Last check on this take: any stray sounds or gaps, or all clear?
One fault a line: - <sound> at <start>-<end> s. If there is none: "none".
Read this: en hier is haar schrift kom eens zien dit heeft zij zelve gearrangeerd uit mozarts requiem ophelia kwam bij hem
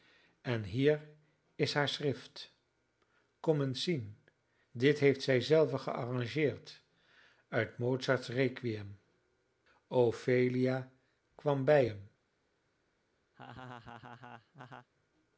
- laugh at 13.3-14.9 s